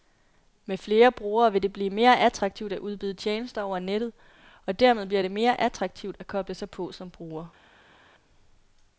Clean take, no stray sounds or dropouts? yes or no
yes